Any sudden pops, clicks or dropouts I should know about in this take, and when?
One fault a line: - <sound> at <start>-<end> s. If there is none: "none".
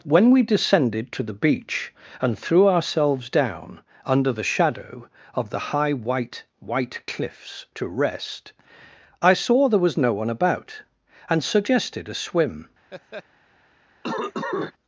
- laugh at 12.9-13.2 s
- cough at 14.0-14.7 s